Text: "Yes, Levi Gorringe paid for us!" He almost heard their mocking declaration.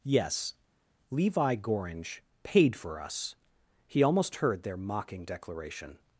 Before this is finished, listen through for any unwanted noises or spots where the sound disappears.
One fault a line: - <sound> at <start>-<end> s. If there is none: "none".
none